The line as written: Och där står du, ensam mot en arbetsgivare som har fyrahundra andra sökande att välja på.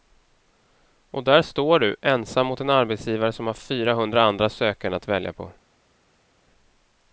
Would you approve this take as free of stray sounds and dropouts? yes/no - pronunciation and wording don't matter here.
yes